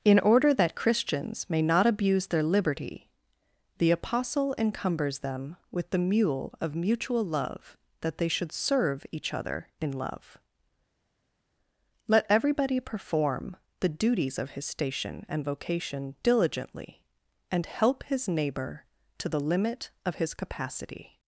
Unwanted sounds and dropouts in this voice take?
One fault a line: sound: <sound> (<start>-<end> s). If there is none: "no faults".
no faults